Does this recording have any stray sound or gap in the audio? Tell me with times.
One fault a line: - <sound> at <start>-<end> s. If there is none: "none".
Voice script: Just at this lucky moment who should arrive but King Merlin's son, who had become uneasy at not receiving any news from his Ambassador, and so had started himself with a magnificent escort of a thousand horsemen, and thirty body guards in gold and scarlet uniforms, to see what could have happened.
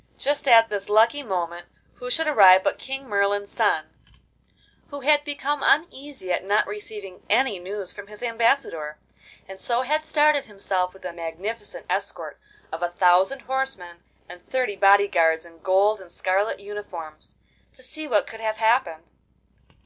none